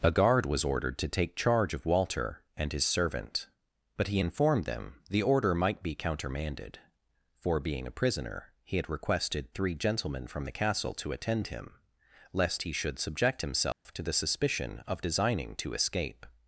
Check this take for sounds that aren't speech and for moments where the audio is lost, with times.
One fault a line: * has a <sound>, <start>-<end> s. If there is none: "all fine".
* has a dropout, 13.7-13.9 s